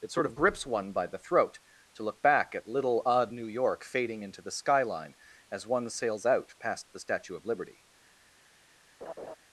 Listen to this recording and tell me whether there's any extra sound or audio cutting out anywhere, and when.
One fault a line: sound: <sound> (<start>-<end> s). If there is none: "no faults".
sound: laugh (9.0-9.4 s)